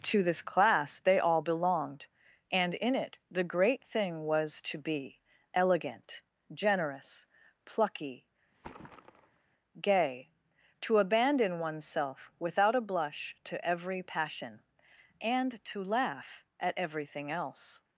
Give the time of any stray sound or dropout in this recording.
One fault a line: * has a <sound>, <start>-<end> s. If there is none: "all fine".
* has a thud, 8.5-9.5 s